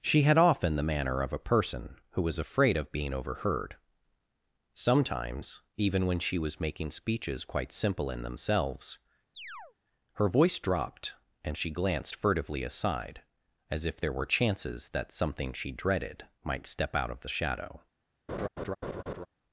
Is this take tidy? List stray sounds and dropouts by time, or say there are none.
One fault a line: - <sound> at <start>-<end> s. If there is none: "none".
- chirp at 9.3-9.7 s
- laugh at 18.3-19.3 s